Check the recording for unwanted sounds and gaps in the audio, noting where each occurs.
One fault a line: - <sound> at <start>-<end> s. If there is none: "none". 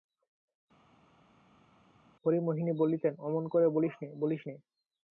none